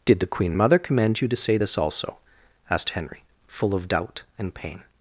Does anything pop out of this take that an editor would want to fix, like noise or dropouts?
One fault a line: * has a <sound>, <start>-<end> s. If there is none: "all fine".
all fine